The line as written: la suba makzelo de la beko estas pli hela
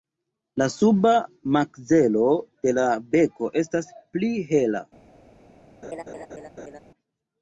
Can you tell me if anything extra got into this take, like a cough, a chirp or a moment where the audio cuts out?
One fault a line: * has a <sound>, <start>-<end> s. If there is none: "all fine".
* has a laugh, 5.8-6.8 s